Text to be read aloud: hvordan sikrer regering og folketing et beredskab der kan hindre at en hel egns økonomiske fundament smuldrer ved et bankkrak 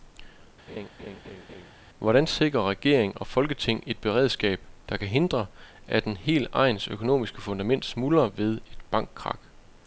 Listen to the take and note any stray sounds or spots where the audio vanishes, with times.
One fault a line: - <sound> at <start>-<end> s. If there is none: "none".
- laugh at 0.7-1.7 s